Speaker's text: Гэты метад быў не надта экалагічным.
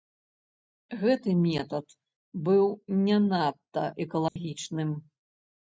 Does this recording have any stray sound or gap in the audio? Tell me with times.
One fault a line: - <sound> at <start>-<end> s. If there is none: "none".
- dropout at 4.3-4.4 s